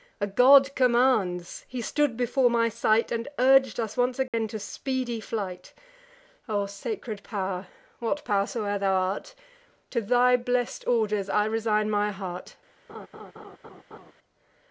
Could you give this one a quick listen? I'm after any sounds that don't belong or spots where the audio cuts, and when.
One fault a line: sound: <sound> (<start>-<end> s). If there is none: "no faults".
sound: dropout (4.3-4.3 s)
sound: laugh (12.9-14.1 s)